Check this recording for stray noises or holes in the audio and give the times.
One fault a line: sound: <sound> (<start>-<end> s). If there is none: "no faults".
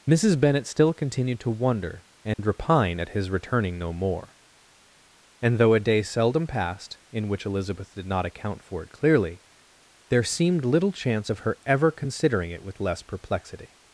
sound: dropout (2.3-2.4 s)